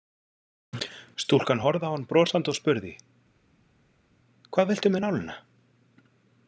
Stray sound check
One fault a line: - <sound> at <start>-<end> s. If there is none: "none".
none